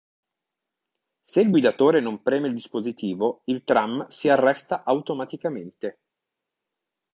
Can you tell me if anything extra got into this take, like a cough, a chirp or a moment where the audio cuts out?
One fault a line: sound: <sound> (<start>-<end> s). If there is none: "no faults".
no faults